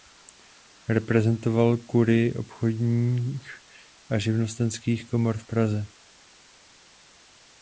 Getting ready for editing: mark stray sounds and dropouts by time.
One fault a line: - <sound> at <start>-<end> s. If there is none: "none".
none